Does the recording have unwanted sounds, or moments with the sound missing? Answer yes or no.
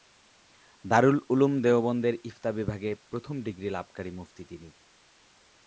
no